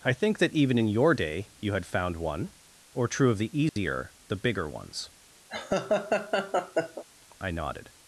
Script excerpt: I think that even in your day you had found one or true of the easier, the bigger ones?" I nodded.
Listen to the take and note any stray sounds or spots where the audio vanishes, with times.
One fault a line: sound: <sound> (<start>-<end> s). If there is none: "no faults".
sound: dropout (3.7-3.8 s)
sound: laugh (5.5-7.0 s)